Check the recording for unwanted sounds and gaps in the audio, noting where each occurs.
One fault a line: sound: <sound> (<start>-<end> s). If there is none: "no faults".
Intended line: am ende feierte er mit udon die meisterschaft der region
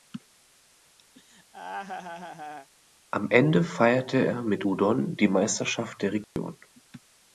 sound: laugh (1.1-2.7 s)
sound: dropout (6.2-6.4 s)